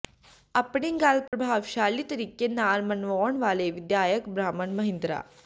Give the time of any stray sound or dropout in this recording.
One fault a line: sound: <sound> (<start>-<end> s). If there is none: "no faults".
sound: dropout (1.3-1.3 s)